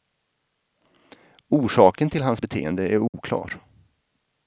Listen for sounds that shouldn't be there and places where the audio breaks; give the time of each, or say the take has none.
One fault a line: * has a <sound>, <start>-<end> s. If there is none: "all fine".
* has a dropout, 3.1-3.1 s